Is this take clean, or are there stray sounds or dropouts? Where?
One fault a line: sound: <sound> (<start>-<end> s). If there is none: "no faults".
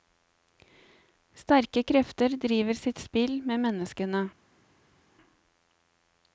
no faults